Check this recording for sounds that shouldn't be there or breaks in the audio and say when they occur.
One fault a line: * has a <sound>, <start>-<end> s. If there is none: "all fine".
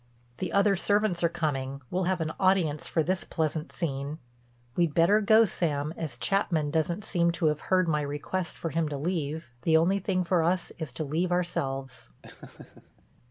* has a laugh, 12.2-13.0 s